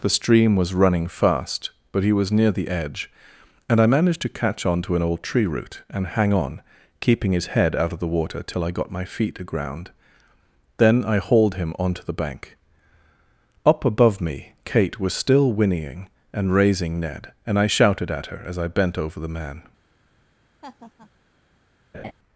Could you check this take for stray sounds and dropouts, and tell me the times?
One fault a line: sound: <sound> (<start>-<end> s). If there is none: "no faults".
sound: laugh (20.6-21.1 s)
sound: laugh (21.9-22.1 s)